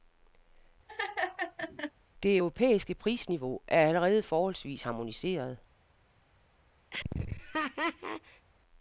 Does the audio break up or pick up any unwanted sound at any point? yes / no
yes